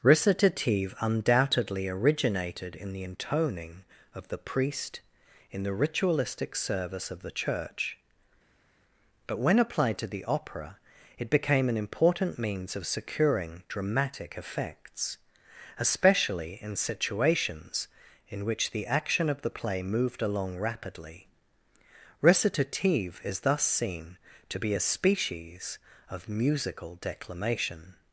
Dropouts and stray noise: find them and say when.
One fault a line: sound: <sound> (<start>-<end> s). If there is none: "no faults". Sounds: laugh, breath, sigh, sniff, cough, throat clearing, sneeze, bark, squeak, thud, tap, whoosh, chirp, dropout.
no faults